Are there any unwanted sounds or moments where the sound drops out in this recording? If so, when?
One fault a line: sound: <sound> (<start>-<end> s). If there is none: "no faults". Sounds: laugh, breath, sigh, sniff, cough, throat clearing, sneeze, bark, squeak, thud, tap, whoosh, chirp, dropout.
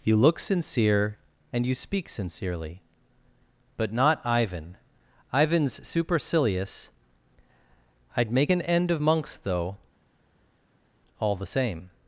no faults